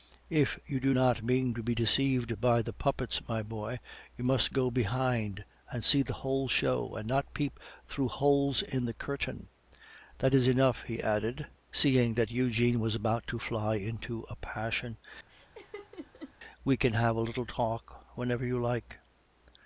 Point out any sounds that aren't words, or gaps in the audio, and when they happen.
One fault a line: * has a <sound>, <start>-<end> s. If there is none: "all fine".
* has a laugh, 15.3-16.3 s